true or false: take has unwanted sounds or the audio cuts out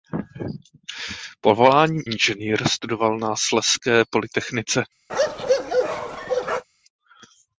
true